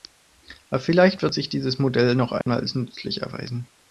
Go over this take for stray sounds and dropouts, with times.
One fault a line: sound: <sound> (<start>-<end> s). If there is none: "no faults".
sound: dropout (2.4-2.5 s)